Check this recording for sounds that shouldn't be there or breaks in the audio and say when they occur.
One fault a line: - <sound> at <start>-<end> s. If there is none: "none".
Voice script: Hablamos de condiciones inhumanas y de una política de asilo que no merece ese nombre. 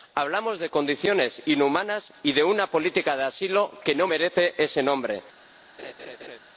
- laugh at 5.8-6.4 s